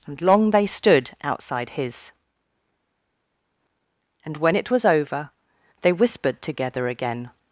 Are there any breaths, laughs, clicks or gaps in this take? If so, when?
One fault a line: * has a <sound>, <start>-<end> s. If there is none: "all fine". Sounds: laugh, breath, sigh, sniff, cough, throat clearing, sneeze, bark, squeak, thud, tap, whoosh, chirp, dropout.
all fine